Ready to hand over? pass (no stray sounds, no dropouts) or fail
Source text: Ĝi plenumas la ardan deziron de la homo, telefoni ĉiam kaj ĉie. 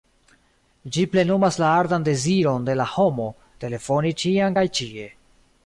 pass